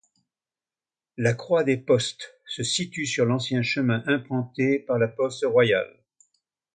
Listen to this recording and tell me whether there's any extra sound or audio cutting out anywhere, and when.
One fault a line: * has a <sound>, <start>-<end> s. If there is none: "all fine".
all fine